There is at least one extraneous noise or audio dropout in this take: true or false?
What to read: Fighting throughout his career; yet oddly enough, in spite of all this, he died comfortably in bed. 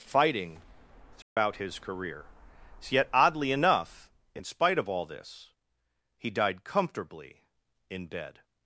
true